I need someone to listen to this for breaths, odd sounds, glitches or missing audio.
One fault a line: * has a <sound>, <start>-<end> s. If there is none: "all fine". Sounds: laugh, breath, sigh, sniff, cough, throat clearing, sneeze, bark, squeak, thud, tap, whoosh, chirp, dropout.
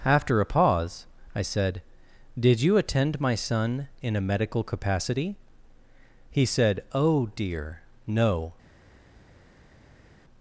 all fine